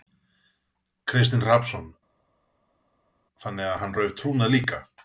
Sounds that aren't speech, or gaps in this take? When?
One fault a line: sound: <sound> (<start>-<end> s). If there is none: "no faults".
no faults